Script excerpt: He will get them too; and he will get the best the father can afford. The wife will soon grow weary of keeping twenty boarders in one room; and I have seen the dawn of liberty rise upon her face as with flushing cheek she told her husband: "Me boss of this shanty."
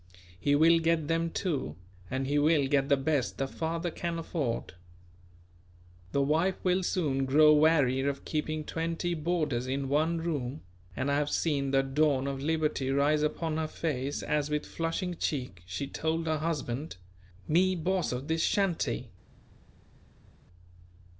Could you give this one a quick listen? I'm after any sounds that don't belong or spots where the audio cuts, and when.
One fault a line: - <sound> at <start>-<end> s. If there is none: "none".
none